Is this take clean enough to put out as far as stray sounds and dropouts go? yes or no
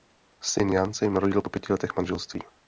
yes